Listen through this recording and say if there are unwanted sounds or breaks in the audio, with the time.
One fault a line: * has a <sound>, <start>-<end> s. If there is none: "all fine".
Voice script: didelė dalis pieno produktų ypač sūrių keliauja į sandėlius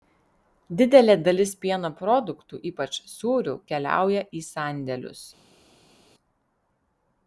all fine